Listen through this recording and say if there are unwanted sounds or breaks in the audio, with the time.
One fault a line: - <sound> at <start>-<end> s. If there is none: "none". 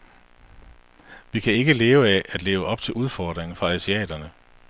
none